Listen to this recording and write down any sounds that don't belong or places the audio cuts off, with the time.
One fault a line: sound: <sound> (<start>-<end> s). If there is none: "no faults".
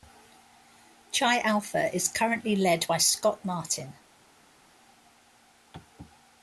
no faults